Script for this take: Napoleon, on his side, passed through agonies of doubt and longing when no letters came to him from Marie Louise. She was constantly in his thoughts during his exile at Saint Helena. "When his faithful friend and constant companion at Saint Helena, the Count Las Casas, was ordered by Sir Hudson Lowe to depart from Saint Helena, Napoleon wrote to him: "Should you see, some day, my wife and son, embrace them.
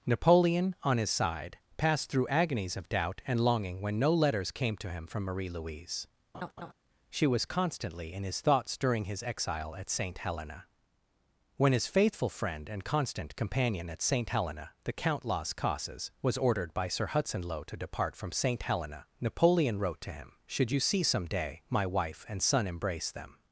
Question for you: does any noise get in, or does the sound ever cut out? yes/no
yes